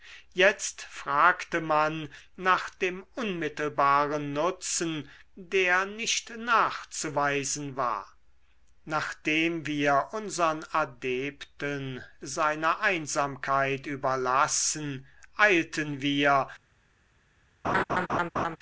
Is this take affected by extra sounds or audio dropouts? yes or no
yes